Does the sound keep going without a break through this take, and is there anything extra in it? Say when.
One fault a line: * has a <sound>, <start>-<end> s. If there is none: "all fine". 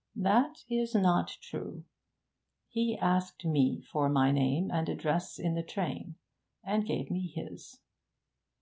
all fine